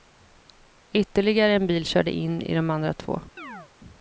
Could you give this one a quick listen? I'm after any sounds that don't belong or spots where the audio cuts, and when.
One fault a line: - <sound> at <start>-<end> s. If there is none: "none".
- chirp at 3.4-3.7 s